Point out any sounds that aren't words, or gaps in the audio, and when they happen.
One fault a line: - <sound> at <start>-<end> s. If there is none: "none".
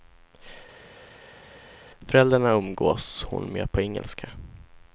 none